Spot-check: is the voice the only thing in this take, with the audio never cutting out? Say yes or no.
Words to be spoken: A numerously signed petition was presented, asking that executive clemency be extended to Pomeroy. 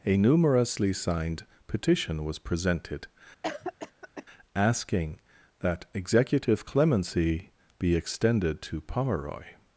no